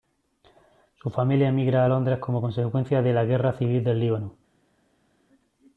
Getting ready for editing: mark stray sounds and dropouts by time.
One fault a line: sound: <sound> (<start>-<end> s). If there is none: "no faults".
no faults